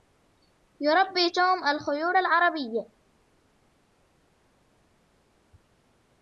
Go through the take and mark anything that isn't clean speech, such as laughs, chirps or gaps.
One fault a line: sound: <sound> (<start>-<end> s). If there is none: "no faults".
no faults